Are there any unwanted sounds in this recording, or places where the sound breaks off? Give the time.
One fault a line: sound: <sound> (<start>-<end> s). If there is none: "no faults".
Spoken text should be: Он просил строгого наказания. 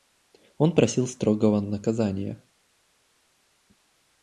no faults